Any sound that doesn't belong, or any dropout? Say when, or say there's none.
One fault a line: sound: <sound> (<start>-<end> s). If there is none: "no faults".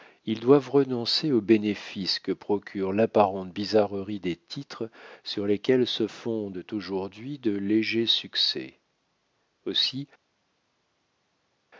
no faults